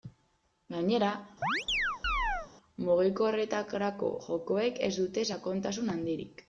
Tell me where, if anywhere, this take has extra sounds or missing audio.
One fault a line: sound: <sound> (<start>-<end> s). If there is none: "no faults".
sound: chirp (1.4-2.5 s)